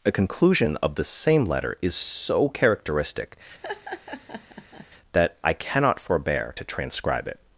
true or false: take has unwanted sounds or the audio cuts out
true